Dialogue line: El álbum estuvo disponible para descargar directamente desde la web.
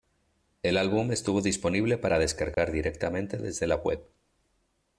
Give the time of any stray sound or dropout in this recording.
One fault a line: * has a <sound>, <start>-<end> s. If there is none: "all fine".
* has a dropout, 2.5-2.6 s